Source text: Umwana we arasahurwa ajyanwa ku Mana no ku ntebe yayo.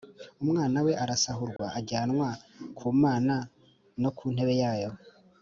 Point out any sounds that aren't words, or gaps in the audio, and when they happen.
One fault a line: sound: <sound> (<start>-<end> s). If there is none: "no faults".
sound: dropout (1.6-1.6 s)